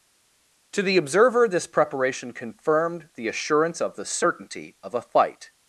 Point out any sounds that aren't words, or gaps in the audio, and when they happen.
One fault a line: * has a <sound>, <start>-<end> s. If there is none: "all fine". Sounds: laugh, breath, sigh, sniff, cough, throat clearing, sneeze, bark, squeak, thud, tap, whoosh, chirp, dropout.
all fine